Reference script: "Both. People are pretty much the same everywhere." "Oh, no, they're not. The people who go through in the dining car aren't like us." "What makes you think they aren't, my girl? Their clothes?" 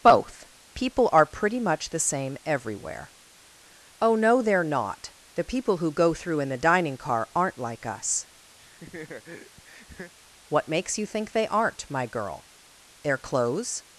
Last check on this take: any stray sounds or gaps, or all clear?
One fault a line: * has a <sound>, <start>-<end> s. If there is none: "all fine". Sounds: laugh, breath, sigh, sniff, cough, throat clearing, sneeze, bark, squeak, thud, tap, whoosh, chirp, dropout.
* has a laugh, 8.6-10.1 s